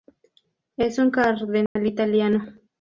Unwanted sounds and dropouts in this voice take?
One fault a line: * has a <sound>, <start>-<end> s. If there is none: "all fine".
* has a dropout, 1.7-1.8 s